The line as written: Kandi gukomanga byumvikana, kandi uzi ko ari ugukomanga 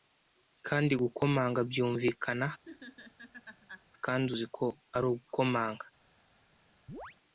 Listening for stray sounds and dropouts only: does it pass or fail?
fail